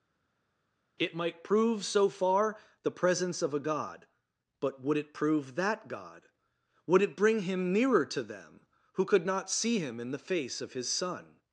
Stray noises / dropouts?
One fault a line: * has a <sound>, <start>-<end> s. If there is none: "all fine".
all fine